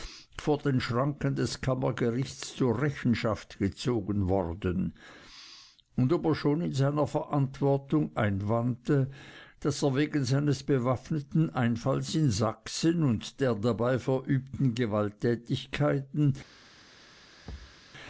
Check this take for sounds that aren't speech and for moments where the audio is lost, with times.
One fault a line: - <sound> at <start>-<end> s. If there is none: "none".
- thud at 17.4-17.8 s